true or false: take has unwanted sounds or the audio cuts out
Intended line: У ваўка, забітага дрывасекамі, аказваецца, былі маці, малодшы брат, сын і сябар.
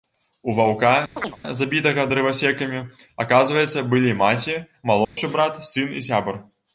true